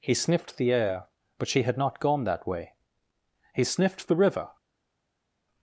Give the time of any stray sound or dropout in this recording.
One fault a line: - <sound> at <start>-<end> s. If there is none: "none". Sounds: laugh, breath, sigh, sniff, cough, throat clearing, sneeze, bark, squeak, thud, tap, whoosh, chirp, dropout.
none